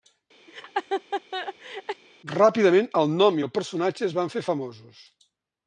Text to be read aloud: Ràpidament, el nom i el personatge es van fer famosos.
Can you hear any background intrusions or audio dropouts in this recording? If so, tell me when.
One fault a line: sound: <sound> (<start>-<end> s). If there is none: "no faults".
sound: laugh (0.5-2.0 s)